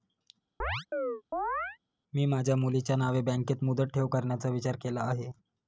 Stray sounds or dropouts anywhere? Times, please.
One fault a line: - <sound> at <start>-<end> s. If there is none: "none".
- chirp at 0.6-1.8 s